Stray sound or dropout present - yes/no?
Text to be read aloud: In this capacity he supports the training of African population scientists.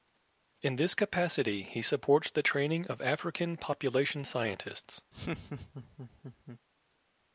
yes